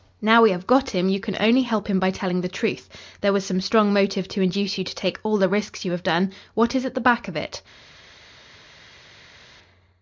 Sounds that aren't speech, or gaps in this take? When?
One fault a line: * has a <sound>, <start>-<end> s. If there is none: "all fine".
all fine